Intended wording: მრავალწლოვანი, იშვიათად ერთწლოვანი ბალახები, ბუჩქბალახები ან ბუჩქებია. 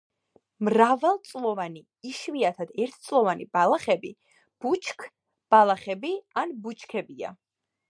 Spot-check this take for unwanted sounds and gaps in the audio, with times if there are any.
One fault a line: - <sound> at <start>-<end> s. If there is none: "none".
none